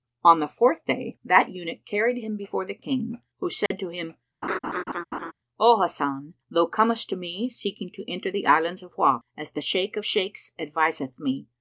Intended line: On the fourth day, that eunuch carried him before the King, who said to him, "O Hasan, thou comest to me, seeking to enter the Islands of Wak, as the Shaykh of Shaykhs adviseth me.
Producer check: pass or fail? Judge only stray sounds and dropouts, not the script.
fail